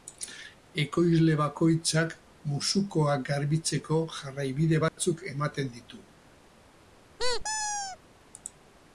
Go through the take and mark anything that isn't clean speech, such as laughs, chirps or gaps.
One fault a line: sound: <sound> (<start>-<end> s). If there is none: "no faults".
sound: dropout (4.9-5.0 s)
sound: squeak (7.2-8.0 s)